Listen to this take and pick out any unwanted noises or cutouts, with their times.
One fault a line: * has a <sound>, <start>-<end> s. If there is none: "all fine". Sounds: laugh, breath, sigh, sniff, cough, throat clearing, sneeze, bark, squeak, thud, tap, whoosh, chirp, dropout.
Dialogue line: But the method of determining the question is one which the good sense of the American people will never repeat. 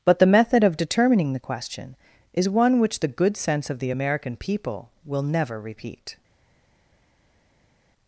all fine